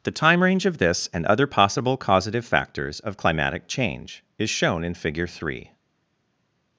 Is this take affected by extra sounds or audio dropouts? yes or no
no